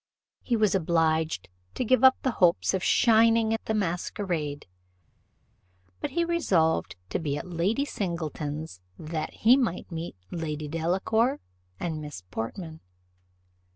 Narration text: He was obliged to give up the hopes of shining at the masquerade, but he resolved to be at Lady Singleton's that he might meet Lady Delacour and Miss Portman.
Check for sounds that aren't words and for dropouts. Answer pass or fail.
pass